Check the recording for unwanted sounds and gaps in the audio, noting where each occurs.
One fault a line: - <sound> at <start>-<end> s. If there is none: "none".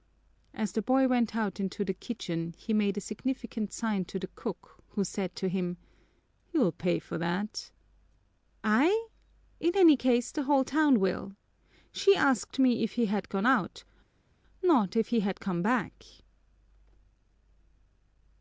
none